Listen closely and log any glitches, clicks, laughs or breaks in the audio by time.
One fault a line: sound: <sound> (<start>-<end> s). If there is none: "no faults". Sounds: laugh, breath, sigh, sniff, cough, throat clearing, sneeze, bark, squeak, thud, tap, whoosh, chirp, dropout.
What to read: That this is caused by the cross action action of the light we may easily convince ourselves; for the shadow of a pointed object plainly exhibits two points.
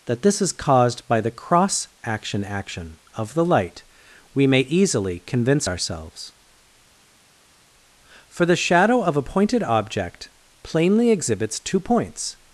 no faults